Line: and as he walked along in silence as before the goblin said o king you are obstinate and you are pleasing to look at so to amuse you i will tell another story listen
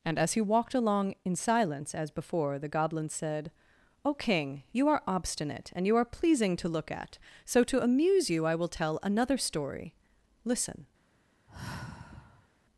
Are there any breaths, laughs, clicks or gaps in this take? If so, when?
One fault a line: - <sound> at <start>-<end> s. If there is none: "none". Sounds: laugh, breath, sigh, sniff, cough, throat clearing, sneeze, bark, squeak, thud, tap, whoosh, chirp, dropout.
- sigh at 11.5-12.5 s